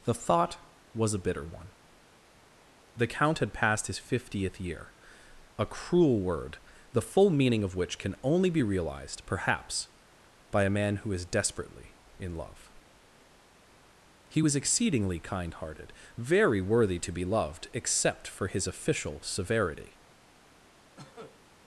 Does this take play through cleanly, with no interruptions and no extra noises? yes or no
no